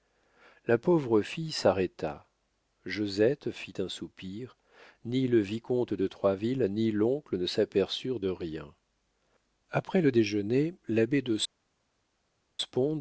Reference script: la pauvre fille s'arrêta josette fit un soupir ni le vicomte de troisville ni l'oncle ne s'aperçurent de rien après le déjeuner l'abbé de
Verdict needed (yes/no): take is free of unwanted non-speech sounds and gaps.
yes